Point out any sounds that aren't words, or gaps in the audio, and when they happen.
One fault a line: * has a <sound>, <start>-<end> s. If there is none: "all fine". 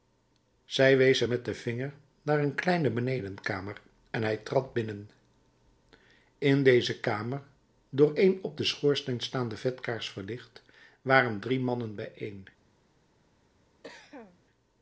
* has a cough, 13.8-14.4 s